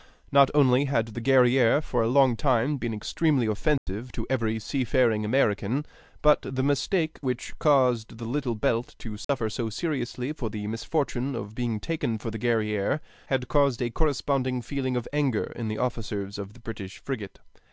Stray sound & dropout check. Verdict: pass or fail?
fail